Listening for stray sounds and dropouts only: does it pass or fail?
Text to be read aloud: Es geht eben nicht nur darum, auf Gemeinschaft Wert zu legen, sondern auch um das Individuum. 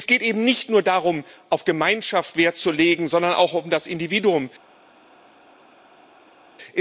pass